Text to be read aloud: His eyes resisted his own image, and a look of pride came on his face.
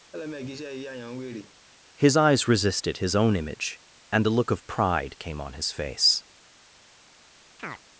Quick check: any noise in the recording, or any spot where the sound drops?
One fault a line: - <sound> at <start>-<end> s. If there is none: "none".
- laugh at 0.1-1.5 s
- chirp at 7.6-7.8 s